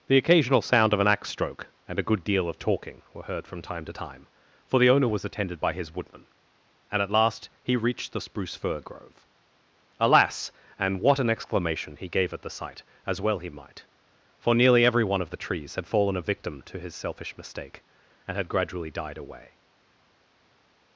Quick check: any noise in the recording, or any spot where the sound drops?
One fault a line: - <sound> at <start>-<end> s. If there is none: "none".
none